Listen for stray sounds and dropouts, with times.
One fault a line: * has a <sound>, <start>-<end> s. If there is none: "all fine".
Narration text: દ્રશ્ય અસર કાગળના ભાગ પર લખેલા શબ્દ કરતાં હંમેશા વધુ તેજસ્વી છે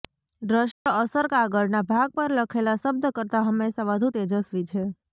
* has a dropout, 0.7-0.9 s